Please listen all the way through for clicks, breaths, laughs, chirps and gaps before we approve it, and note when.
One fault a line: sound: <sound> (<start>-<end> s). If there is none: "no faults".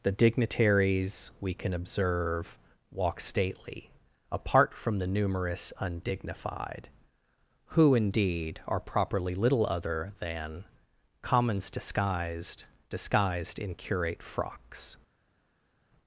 no faults